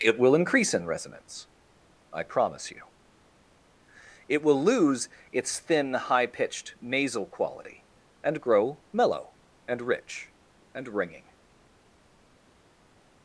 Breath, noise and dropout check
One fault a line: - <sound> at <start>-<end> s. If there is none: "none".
none